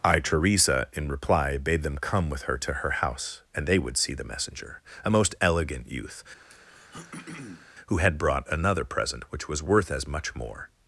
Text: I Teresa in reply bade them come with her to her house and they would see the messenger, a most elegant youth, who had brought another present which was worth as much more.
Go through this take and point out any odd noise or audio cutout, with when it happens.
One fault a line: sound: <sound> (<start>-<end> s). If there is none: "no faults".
sound: throat clearing (6.5-7.7 s)